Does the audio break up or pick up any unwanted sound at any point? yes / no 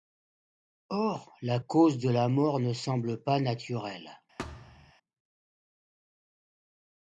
yes